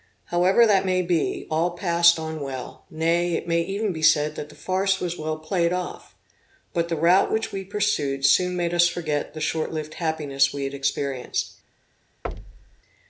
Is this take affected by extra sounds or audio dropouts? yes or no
yes